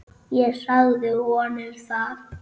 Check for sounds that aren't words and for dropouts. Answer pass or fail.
pass